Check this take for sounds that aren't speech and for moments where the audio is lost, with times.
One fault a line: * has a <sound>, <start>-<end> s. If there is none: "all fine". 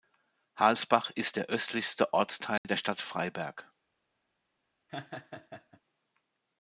* has a dropout, 2.6-2.6 s
* has a laugh, 4.9-5.8 s